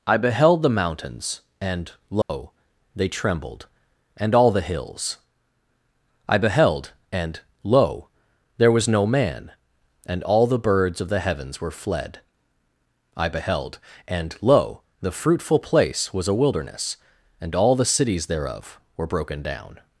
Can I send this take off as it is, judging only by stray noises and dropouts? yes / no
no